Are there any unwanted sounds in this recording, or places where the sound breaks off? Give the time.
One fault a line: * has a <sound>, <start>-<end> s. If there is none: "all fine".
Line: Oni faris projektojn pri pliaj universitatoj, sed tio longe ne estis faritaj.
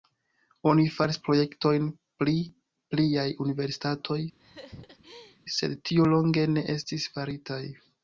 * has a laugh, 4.4-5.4 s